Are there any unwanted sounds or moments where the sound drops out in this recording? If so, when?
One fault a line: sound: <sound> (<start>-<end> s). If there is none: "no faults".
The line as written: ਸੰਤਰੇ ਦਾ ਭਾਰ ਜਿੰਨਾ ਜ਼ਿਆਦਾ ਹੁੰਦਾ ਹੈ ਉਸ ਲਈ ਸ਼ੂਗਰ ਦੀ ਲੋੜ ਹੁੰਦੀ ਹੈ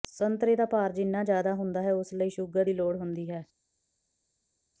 no faults